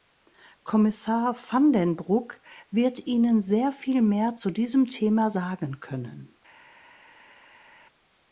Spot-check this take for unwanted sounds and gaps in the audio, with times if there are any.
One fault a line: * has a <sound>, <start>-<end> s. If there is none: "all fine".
all fine